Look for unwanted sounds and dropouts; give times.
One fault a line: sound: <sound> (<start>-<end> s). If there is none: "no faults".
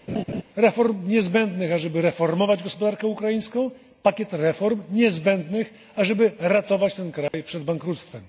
sound: laugh (0.1-0.4 s)
sound: dropout (7.3-7.3 s)